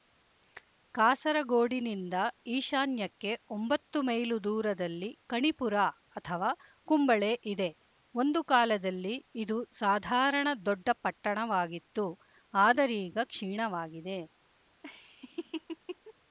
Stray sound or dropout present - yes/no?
yes